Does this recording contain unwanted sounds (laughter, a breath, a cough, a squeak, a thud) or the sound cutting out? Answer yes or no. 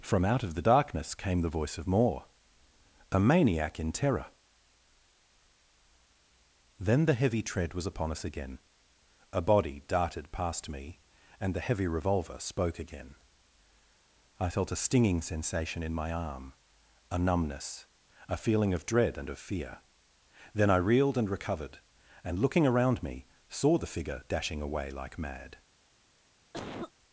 yes